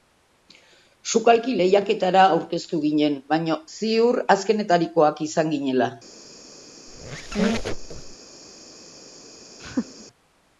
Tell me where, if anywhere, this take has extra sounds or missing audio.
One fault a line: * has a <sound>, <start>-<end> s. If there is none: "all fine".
* has a squeak, 6.9-8.2 s
* has a laugh, 9.6-10.1 s